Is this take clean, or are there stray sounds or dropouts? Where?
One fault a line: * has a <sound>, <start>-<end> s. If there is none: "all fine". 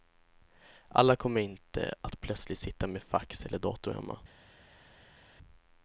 all fine